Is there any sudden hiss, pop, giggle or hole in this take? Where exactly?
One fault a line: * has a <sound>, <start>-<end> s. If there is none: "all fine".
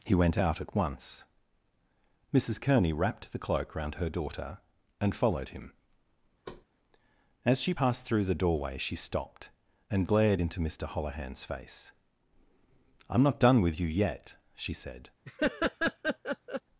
* has a thud, 6.5-6.7 s
* has a laugh, 15.3-16.6 s